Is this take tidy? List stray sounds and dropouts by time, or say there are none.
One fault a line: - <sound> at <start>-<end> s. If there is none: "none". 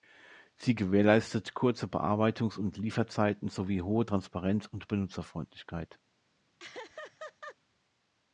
- laugh at 6.6-7.6 s